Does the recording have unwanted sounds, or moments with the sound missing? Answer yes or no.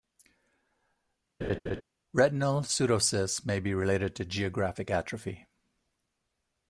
yes